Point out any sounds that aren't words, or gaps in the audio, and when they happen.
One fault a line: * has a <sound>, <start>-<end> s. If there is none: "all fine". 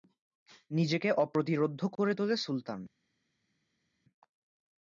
all fine